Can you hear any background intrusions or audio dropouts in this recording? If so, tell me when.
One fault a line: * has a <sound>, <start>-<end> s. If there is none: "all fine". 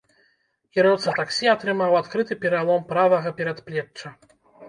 all fine